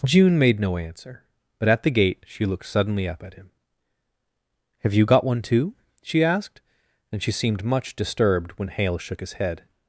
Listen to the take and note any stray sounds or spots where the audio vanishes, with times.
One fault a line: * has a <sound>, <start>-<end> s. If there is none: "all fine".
all fine